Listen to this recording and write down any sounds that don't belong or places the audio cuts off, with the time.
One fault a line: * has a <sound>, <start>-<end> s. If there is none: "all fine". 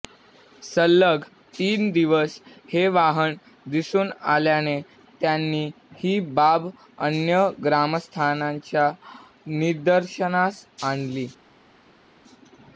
all fine